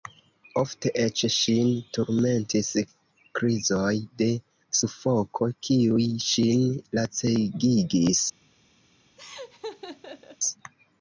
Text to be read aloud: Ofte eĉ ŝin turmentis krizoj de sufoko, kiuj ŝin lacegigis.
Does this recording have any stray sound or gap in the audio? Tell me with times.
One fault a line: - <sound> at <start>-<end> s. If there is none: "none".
- laugh at 9.2-10.4 s